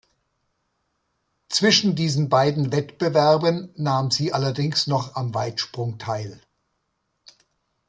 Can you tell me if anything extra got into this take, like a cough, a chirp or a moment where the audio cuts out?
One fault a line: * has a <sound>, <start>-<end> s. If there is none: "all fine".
all fine